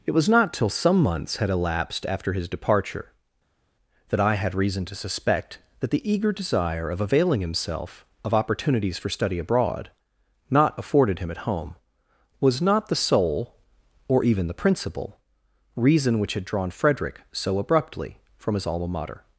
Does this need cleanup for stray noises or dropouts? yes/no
no